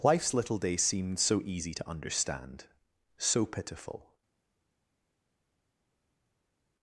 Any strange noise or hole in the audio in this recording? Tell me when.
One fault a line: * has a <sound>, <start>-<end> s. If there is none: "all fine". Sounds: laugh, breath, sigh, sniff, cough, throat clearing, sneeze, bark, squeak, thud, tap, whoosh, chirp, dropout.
all fine